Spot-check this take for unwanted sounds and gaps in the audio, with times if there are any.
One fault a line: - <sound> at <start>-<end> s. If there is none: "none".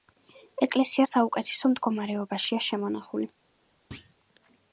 - thud at 3.9-4.1 s